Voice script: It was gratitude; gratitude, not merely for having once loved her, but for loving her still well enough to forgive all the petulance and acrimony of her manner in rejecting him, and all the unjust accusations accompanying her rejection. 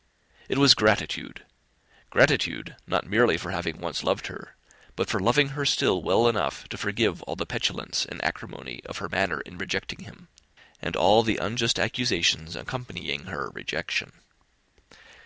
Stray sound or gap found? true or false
false